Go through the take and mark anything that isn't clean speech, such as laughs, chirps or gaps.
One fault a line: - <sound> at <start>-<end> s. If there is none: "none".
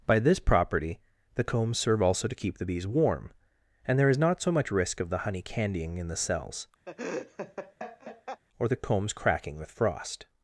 - laugh at 6.9-8.4 s